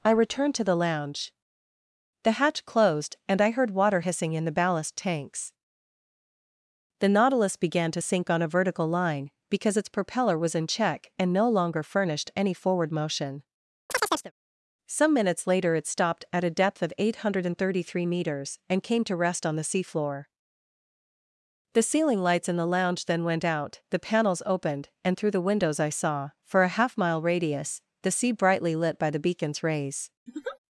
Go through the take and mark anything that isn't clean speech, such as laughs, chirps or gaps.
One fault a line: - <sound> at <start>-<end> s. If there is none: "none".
- chirp at 13.9-14.3 s
- laugh at 30.3-30.6 s